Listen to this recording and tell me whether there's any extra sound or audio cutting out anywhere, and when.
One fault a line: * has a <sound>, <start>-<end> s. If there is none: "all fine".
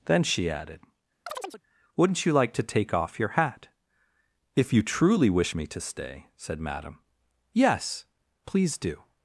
* has a chirp, 1.3-1.6 s